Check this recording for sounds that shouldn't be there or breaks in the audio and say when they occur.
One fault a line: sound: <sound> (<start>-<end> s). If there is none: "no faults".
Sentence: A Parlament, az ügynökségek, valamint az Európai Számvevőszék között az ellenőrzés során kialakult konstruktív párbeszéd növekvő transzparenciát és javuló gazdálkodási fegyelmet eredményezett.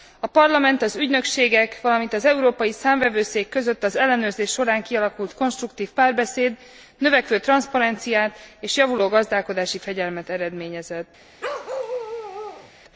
sound: bark (11.4-12.7 s)